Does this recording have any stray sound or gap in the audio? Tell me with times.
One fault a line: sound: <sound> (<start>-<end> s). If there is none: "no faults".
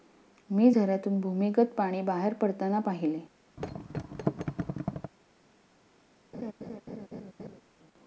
sound: thud (3.6-5.1 s)
sound: laugh (6.3-7.6 s)